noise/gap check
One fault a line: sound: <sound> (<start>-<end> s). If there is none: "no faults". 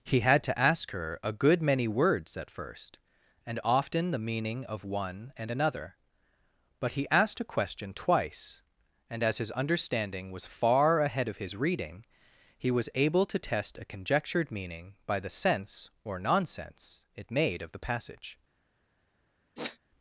sound: sniff (19.6-19.8 s)